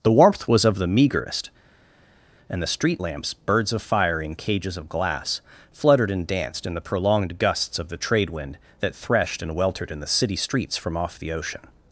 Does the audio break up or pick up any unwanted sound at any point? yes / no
no